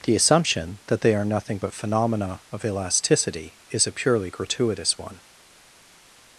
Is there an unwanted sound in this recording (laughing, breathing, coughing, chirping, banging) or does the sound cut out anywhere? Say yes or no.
no